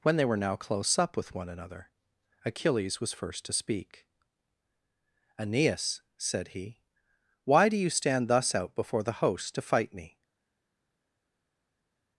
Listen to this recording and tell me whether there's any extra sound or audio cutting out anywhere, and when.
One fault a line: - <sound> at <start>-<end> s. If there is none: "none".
none